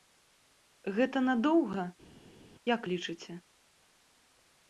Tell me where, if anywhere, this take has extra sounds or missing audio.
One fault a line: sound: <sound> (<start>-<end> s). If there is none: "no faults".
no faults